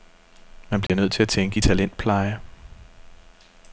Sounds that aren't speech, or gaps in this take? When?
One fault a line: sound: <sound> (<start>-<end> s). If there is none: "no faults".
sound: dropout (0.9-0.9 s)